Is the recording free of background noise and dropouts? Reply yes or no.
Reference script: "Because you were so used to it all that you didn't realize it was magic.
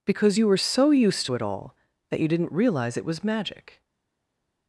yes